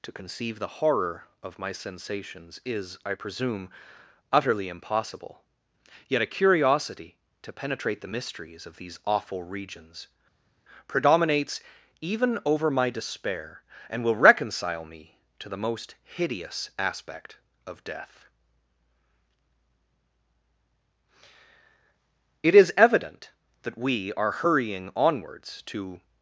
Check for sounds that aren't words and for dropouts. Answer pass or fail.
pass